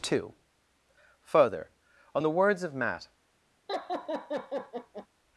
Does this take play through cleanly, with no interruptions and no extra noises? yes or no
no